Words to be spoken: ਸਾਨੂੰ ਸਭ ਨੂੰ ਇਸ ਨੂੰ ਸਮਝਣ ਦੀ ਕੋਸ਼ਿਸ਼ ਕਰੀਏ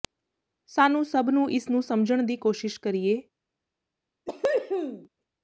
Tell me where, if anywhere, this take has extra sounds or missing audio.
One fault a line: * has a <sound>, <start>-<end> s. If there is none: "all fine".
* has a cough, 4.3-5.1 s